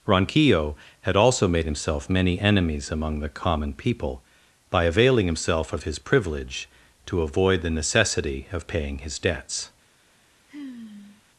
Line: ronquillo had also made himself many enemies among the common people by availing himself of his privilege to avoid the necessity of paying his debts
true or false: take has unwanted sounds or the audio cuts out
true